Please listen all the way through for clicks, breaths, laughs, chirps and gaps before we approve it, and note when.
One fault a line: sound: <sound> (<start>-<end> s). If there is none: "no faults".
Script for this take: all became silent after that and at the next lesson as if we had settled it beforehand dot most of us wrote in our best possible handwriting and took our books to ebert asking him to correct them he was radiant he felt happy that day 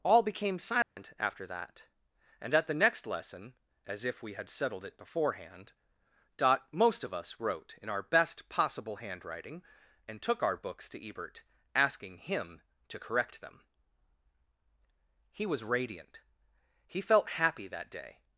sound: dropout (0.8-1.0 s)